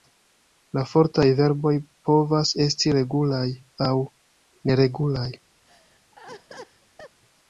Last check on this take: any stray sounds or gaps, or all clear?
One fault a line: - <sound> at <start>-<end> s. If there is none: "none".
- laugh at 5.7-7.2 s